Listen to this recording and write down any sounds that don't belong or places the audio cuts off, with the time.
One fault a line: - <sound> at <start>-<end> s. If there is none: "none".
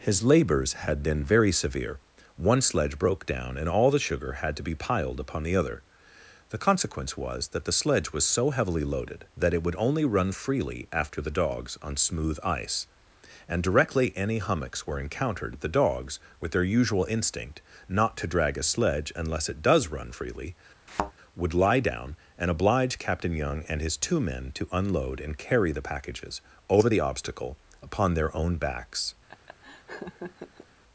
- thud at 20.9-21.1 s
- laugh at 29.3-30.7 s